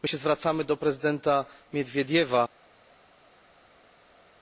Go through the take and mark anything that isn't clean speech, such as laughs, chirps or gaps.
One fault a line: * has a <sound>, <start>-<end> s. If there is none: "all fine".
all fine